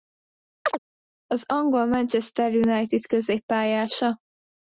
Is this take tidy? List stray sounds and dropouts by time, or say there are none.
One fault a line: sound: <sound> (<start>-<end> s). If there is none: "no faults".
sound: chirp (0.6-0.8 s)